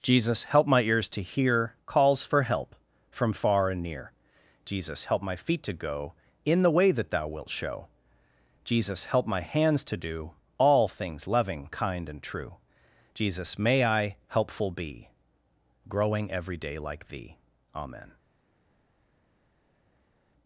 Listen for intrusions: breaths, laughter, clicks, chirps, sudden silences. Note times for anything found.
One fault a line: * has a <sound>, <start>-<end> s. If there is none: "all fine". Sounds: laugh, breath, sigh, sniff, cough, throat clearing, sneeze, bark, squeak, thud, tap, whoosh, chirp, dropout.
all fine